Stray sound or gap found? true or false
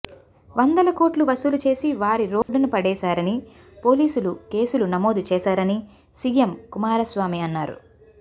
true